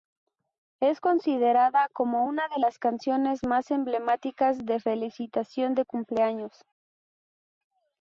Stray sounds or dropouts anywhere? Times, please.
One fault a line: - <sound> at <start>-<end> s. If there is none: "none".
none